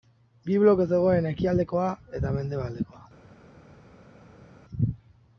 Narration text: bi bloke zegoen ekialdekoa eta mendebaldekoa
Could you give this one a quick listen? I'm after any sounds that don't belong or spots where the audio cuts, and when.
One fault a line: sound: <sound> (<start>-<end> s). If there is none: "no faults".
no faults